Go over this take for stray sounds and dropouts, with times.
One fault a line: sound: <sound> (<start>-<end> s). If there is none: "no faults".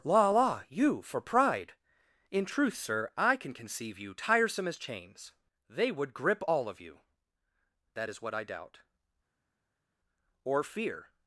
no faults